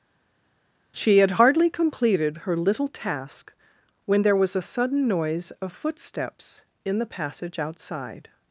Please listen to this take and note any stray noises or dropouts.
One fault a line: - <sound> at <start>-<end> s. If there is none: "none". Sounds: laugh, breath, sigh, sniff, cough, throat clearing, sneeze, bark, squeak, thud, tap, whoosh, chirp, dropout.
none